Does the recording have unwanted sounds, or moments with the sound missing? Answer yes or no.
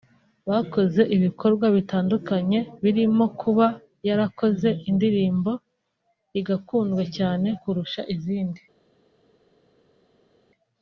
no